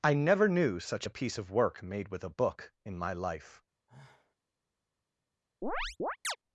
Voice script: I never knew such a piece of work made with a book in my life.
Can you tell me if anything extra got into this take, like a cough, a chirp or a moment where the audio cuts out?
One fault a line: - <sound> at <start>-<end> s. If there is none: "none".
- sigh at 3.9-4.4 s
- chirp at 5.6-6.4 s